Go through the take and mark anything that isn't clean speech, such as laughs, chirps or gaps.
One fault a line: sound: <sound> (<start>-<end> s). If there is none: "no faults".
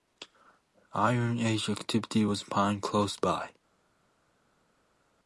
no faults